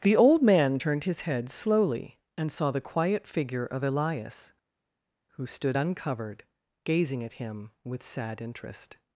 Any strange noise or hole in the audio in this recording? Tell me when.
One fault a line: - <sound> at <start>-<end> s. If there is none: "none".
none